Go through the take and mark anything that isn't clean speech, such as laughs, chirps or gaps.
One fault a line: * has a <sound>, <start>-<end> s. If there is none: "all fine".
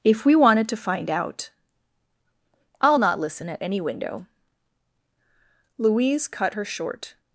all fine